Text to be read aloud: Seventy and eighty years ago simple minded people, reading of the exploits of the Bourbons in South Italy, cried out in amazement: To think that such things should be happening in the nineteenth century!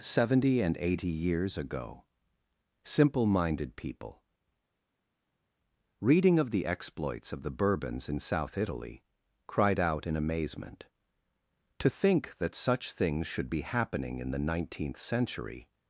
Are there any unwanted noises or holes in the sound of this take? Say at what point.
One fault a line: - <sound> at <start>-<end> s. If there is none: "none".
none